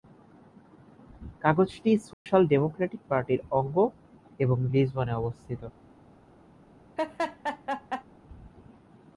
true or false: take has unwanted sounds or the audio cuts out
true